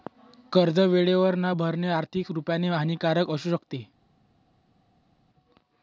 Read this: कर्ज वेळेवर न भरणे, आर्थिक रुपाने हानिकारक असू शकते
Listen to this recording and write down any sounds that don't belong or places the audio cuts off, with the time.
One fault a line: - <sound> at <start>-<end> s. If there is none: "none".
none